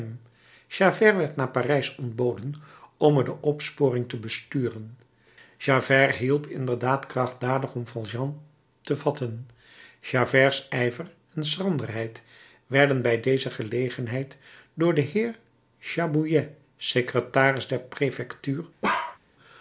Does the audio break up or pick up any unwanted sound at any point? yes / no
yes